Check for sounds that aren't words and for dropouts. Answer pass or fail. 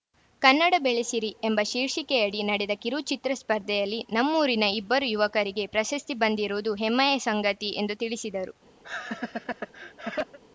fail